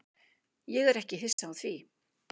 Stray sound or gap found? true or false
true